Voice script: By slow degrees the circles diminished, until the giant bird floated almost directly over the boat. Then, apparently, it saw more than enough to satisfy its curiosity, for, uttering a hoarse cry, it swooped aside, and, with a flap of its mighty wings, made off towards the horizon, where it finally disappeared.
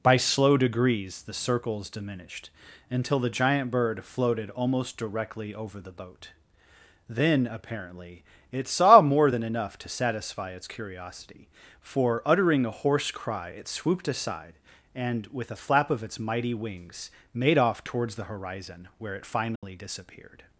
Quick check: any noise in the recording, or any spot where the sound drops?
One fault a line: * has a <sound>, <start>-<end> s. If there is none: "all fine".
* has a dropout, 19.6-19.6 s